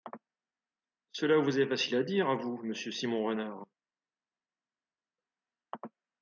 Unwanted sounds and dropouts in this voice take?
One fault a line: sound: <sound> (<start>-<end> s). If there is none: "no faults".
no faults